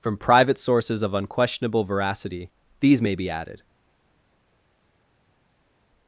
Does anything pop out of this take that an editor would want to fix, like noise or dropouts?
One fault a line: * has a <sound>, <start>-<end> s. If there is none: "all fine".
all fine